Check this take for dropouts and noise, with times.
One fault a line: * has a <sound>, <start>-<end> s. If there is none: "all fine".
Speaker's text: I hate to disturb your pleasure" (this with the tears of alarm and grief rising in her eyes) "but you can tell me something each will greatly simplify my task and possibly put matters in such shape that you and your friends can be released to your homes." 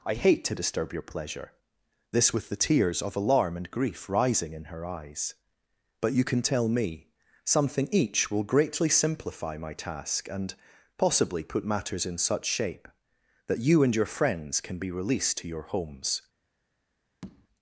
* has a tap, 17.2-17.5 s